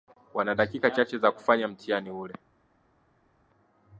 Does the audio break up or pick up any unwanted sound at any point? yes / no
no